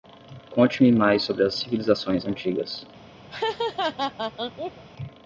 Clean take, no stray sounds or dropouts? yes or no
no